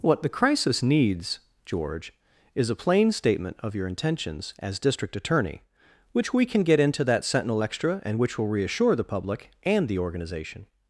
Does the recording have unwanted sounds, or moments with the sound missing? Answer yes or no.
no